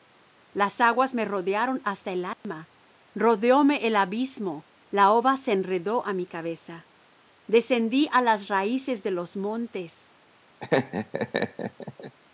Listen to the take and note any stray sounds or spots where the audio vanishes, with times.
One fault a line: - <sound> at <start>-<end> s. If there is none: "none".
- dropout at 2.3-2.4 s
- laugh at 10.6-12.1 s